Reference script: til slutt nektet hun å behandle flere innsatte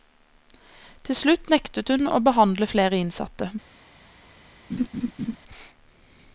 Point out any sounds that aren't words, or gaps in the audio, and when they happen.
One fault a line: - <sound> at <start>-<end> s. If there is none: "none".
- laugh at 4.7-5.4 s